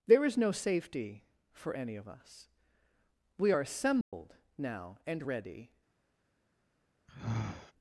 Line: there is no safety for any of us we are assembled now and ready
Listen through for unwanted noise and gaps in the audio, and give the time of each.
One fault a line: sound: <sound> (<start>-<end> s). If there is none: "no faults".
sound: dropout (4.0-4.1 s)
sound: sigh (7.1-7.7 s)